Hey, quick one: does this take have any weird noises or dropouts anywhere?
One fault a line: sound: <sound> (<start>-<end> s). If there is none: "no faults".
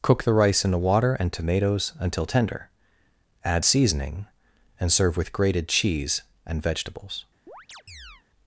sound: chirp (7.5-8.2 s)